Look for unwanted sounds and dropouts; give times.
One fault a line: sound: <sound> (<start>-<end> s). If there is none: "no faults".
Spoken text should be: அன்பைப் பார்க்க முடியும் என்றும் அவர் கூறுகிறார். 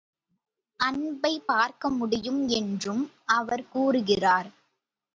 no faults